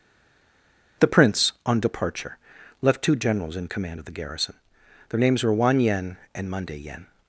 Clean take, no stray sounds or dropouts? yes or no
yes